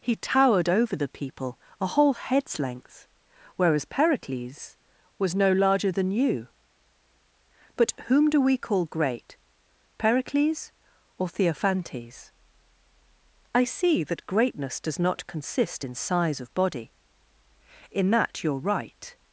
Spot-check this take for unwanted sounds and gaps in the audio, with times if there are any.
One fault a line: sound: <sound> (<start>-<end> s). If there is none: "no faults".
no faults